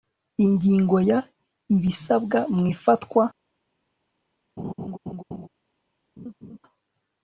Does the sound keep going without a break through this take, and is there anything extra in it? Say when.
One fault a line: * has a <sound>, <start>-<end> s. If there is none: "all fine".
* has a laugh, 4.6-5.5 s
* has a laugh, 6.2-6.6 s